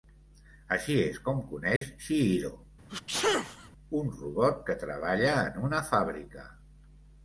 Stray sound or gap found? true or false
true